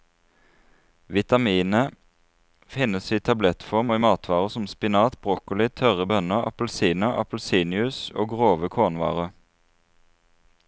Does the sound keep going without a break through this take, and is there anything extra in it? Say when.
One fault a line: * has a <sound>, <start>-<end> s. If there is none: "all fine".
all fine